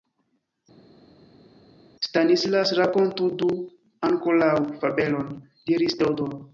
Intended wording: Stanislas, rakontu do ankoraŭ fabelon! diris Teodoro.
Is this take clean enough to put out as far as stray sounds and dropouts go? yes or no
yes